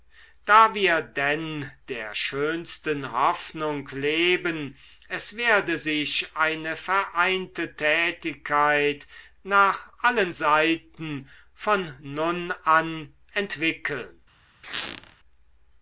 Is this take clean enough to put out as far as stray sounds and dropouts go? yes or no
no